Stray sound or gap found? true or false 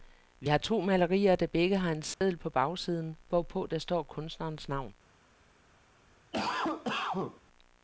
true